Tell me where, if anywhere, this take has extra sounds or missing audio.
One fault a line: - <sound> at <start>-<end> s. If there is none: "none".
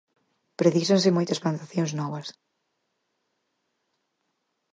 none